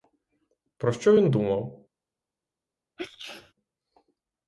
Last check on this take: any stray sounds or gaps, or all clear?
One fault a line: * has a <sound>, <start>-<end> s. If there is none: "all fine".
* has a sneeze, 3.0-3.5 s